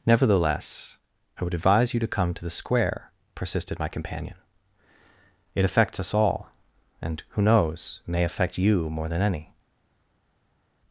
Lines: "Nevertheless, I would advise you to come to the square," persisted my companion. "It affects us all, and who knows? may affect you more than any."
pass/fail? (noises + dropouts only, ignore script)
pass